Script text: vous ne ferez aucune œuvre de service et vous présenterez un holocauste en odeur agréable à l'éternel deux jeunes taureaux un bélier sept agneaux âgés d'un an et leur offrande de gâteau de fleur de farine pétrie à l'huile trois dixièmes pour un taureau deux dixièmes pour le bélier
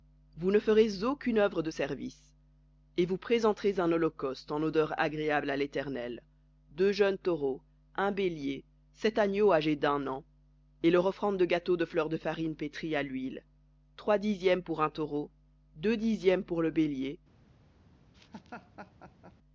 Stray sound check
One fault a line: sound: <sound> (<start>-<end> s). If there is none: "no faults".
sound: laugh (18.1-19.4 s)